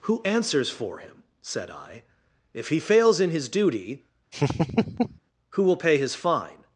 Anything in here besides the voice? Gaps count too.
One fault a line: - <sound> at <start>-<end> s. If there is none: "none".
- laugh at 4.3-5.2 s